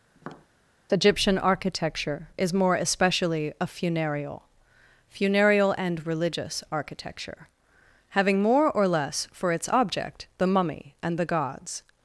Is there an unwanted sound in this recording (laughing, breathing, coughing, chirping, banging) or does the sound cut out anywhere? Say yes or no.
yes